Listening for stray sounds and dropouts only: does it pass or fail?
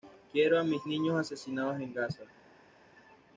pass